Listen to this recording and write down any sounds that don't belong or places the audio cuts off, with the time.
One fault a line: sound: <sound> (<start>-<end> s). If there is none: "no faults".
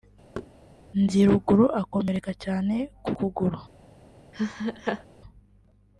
sound: thud (0.3-0.5 s)
sound: laugh (4.3-5.0 s)